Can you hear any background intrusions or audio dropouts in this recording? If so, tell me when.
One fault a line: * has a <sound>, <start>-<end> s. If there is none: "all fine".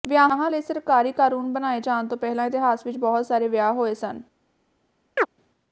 * has a chirp, 5.2-5.3 s